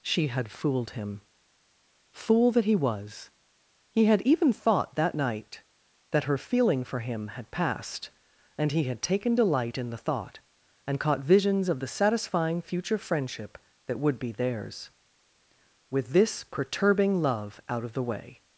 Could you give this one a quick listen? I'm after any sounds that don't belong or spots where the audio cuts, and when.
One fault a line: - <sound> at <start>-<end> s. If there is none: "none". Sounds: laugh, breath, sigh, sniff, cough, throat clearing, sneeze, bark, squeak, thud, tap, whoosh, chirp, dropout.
none